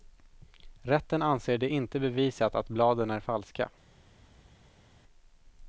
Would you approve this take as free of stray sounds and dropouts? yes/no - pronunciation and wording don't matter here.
yes